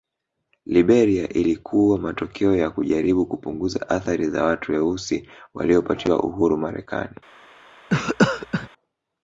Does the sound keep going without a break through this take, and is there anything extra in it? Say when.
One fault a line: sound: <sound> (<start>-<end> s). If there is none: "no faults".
sound: cough (7.9-8.7 s)